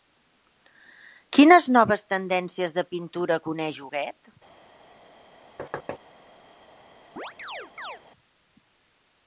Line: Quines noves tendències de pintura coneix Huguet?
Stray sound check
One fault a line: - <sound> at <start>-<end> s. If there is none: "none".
- thud at 5.6-6.0 s
- chirp at 7.2-8.0 s